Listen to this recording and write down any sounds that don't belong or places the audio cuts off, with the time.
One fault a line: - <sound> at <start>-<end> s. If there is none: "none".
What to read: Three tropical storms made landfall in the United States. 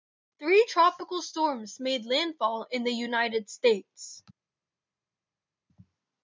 none